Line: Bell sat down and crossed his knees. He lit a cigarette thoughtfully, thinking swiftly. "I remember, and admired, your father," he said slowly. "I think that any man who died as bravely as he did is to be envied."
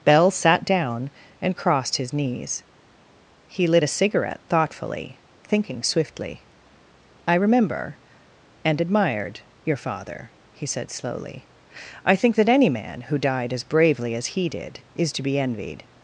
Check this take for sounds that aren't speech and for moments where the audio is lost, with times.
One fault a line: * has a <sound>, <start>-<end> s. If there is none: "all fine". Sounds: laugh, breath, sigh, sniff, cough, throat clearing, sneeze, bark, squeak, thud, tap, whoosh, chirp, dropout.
all fine